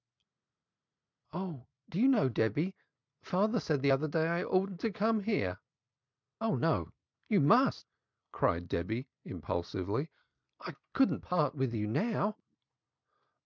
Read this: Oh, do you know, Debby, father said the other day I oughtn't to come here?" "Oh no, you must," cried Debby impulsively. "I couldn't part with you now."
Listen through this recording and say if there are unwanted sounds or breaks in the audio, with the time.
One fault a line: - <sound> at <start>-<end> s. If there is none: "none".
none